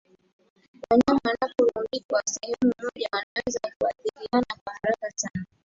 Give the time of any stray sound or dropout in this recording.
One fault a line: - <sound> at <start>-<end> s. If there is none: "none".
- dropout at 3.2-3.4 s